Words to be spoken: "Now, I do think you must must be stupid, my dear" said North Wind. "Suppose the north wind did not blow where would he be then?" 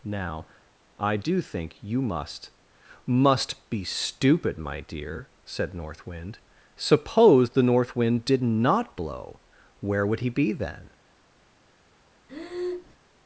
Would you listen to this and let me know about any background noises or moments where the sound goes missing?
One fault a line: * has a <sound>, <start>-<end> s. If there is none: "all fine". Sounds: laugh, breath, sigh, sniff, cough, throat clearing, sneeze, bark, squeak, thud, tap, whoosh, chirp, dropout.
* has a breath, 12.3-13.0 s